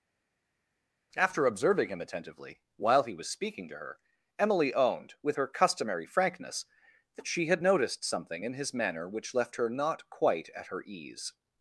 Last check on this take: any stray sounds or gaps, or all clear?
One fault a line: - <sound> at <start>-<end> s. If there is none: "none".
none